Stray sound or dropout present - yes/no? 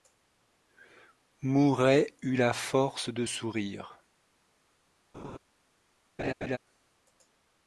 yes